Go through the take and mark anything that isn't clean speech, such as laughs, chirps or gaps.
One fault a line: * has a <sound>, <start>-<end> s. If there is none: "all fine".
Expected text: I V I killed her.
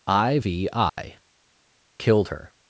* has a dropout, 0.9-1.0 s